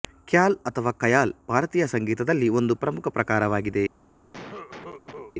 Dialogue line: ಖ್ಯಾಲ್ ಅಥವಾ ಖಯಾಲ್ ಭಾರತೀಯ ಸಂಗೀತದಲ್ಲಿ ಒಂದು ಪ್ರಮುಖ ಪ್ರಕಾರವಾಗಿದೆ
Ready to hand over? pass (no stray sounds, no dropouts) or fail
fail